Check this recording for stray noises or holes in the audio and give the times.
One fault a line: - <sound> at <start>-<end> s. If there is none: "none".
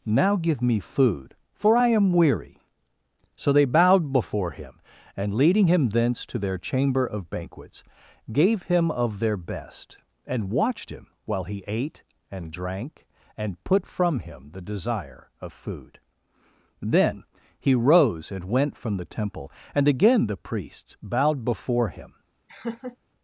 - laugh at 22.5-23.0 s